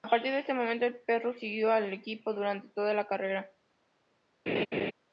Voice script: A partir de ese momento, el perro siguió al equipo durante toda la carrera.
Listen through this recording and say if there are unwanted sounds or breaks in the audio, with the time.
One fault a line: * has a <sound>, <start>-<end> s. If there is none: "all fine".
* has a laugh, 4.5-4.9 s